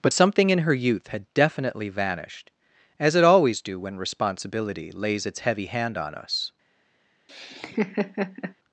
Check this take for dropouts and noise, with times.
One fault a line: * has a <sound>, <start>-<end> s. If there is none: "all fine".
* has a laugh, 7.3-8.5 s